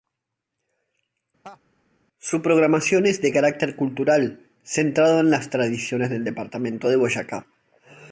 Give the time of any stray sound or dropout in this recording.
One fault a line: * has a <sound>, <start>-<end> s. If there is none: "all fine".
* has a laugh, 1.4-1.6 s